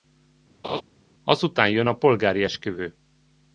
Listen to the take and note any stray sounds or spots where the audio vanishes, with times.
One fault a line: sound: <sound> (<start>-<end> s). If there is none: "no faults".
sound: laugh (0.6-0.8 s)